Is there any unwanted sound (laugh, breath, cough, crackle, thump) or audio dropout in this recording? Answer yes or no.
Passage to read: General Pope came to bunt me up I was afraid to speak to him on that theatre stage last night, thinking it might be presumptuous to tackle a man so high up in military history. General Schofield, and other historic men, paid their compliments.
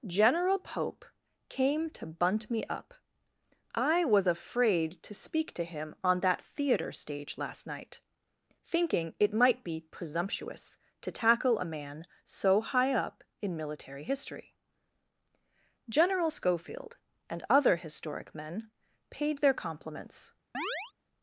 yes